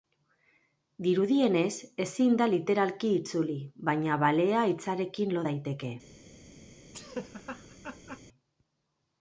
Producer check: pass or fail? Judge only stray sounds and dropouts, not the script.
fail